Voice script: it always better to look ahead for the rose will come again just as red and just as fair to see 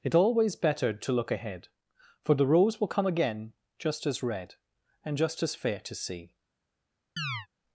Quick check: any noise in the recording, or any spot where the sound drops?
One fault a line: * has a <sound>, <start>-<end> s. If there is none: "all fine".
* has a chirp, 7.2-7.5 s